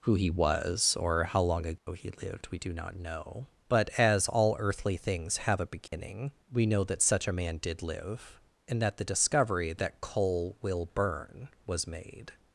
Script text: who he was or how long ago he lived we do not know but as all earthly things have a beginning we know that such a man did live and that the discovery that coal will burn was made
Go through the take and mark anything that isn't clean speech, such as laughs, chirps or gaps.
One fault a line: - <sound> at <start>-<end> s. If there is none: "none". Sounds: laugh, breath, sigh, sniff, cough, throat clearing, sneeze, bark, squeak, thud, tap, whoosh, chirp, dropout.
- dropout at 1.8-1.9 s
- dropout at 5.9-5.9 s